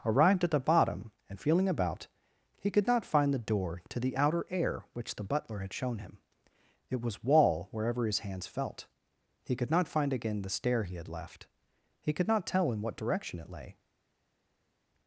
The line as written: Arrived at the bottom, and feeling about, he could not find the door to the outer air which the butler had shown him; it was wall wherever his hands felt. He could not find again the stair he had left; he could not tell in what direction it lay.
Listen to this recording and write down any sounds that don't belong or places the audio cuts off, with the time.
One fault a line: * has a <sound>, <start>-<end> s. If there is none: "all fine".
all fine